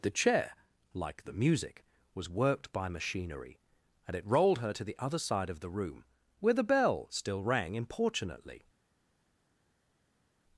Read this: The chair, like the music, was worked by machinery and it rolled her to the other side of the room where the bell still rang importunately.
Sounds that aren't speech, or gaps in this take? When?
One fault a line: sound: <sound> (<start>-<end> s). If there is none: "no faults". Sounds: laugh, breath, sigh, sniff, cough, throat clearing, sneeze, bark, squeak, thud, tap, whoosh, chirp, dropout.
no faults